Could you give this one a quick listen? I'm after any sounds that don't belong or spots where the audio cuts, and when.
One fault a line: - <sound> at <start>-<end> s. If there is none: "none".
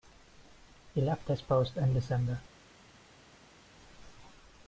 none